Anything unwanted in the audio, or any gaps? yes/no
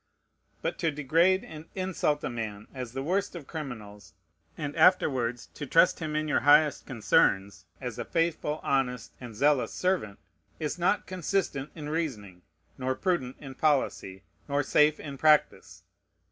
no